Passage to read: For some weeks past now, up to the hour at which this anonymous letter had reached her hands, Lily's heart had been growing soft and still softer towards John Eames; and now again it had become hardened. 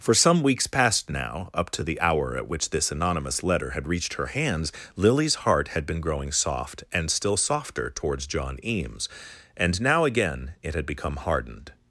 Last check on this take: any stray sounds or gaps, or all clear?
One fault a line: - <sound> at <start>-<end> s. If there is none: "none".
none